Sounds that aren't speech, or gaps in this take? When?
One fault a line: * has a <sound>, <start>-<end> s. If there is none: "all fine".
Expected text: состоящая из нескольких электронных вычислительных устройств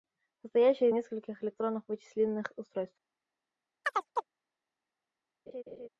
* has a chirp, 3.8-4.3 s
* has a laugh, 5.5-5.9 s